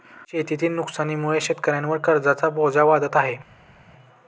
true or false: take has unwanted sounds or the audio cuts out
false